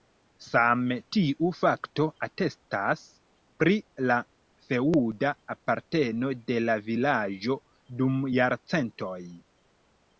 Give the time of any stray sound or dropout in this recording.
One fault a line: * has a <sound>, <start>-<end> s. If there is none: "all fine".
all fine